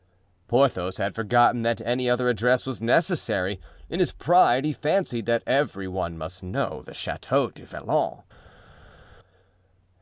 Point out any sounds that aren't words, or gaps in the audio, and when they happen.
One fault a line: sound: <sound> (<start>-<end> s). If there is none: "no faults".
no faults